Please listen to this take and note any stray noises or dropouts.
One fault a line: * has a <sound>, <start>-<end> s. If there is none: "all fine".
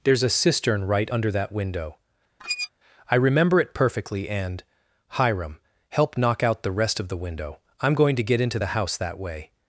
* has a squeak, 2.4-2.7 s